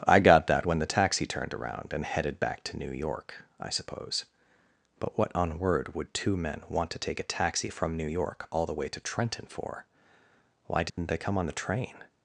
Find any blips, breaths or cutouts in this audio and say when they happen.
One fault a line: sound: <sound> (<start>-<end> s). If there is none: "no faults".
sound: dropout (10.9-11.0 s)